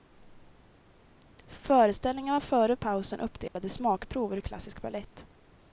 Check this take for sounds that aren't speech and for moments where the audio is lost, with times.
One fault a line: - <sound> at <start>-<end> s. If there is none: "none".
- dropout at 3.5-3.6 s